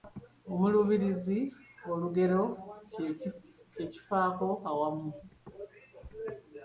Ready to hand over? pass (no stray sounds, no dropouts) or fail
pass